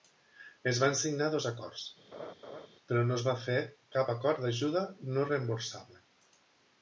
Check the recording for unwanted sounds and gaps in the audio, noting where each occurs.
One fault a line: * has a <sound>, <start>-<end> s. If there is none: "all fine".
* has a laugh, 2.1-2.7 s